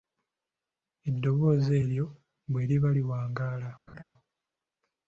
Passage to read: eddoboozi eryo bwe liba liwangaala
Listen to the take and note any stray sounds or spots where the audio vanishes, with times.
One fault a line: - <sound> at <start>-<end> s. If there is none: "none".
- laugh at 3.9-4.0 s